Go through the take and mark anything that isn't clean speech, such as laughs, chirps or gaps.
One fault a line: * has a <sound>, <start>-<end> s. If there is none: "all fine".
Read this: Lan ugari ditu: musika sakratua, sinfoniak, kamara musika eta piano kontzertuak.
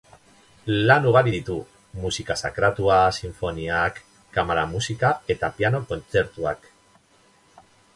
all fine